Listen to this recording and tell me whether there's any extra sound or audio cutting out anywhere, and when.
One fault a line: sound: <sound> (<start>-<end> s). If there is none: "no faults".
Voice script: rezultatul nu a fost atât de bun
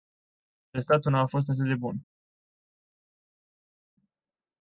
no faults